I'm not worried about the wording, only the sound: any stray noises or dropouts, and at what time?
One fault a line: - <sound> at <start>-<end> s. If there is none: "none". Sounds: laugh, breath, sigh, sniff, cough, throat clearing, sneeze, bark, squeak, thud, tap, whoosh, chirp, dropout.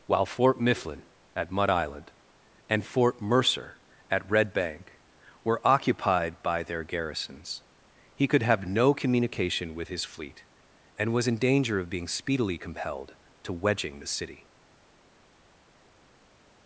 none